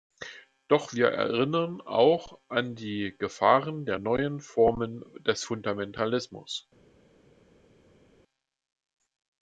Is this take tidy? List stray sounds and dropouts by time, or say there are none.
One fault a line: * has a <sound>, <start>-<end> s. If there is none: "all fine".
all fine